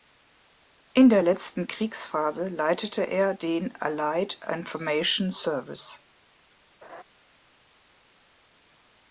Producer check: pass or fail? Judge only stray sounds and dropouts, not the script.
fail